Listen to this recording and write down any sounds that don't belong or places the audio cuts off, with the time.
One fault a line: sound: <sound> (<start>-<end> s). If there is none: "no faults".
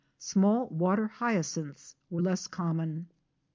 no faults